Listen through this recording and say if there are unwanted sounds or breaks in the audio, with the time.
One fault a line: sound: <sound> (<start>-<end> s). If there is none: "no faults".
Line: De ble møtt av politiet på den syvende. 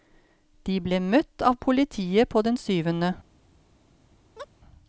sound: chirp (4.4-4.5 s)